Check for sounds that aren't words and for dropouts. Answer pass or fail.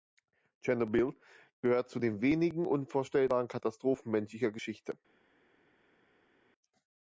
pass